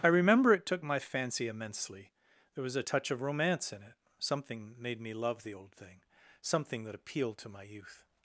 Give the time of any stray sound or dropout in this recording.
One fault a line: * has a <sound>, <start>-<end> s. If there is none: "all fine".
all fine